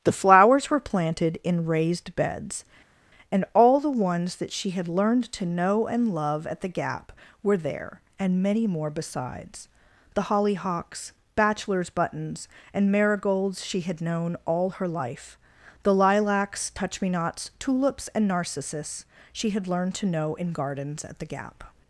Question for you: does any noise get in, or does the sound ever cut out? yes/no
no